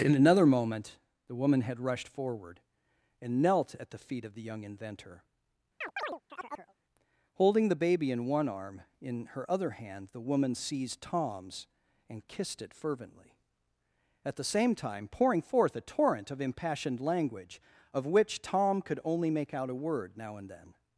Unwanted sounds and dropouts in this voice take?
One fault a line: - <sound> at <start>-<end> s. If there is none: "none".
- chirp at 5.8-6.7 s